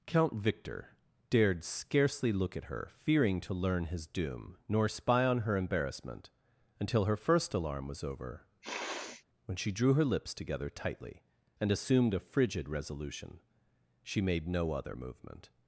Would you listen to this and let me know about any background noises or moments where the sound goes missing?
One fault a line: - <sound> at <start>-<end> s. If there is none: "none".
- sniff at 8.6-9.2 s